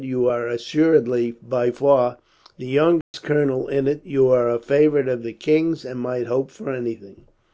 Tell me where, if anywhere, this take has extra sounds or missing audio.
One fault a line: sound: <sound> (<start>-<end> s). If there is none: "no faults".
sound: dropout (3.0-3.1 s)